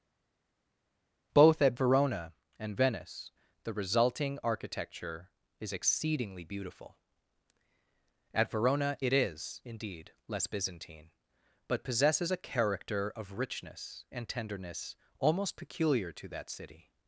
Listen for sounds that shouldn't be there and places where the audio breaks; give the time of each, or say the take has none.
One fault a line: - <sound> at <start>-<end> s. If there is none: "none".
none